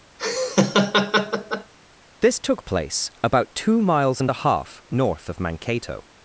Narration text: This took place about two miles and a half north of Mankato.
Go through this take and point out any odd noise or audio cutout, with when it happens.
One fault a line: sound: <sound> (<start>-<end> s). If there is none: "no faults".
sound: laugh (0.2-1.7 s)